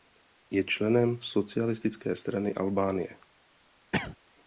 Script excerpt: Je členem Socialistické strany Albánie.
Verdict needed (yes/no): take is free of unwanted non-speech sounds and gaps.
no